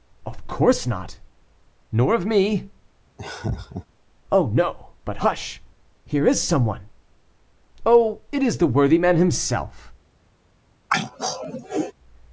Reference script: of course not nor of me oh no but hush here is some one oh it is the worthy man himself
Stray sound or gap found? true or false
true